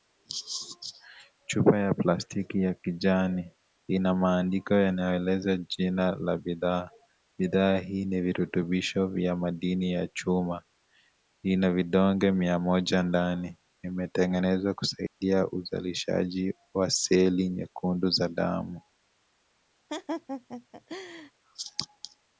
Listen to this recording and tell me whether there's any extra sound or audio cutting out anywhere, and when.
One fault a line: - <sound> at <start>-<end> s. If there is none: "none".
- dropout at 15.1-15.2 s
- laugh at 19.9-21.3 s